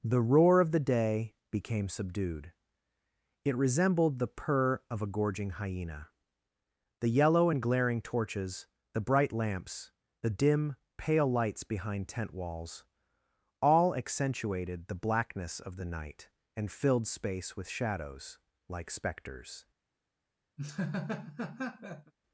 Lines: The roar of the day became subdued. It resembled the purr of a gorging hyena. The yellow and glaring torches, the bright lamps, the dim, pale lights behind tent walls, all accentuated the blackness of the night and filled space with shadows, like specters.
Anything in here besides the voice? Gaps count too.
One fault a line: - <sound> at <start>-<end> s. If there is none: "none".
- laugh at 20.6-22.1 s